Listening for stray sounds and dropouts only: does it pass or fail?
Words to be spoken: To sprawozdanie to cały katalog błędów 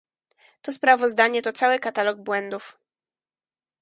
pass